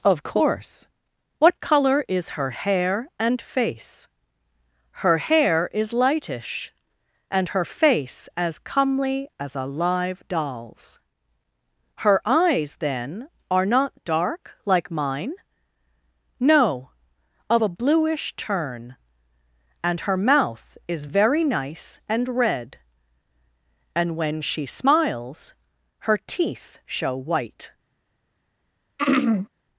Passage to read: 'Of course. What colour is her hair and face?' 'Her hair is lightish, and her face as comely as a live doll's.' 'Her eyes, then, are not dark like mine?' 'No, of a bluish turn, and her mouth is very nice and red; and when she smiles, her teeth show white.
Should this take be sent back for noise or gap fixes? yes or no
yes